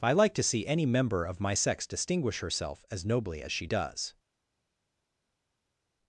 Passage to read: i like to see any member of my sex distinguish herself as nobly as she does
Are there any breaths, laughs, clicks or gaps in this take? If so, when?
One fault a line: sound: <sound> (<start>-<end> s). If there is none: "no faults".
no faults